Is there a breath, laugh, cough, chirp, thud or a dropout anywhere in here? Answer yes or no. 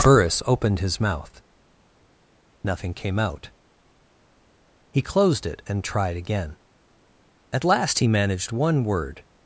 no